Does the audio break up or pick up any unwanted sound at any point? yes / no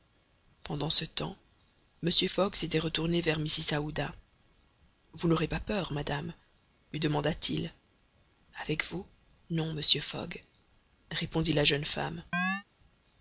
yes